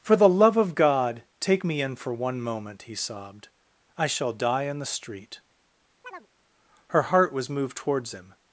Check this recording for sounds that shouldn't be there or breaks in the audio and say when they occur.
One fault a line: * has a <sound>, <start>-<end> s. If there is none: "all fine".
* has a chirp, 6.0-6.3 s